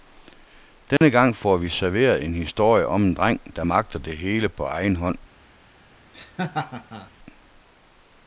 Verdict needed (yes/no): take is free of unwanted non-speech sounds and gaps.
no